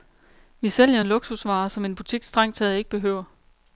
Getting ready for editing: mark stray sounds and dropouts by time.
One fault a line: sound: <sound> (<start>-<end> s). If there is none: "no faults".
no faults